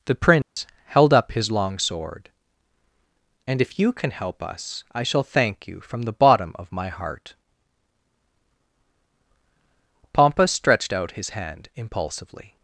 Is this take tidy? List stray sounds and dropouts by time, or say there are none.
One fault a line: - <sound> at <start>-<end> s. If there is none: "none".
- dropout at 0.4-0.6 s